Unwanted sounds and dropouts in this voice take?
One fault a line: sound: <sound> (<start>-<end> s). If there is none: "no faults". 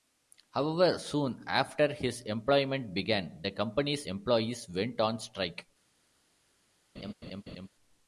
sound: laugh (7.0-7.7 s)